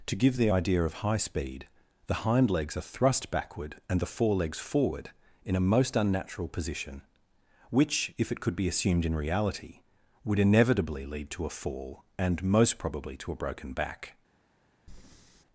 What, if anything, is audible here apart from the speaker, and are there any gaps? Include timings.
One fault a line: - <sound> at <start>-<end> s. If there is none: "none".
- breath at 14.9-15.4 s